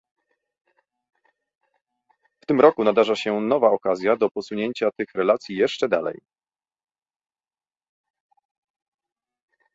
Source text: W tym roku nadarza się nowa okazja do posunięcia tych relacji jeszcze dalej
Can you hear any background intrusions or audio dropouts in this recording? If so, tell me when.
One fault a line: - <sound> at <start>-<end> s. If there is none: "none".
none